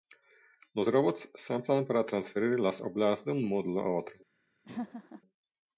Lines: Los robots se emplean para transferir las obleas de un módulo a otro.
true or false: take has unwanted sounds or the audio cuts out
true